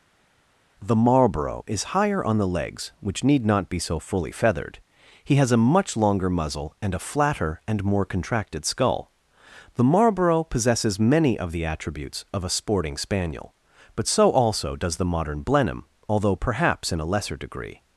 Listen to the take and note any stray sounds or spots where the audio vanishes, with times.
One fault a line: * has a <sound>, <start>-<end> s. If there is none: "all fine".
all fine